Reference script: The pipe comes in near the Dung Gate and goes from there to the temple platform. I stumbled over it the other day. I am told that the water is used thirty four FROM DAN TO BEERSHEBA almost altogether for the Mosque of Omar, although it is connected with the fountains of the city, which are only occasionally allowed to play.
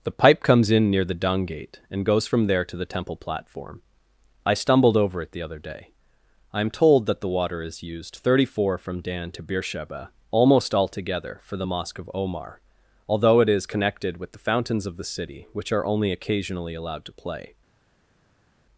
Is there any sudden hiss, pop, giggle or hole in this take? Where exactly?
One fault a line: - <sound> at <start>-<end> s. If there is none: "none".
none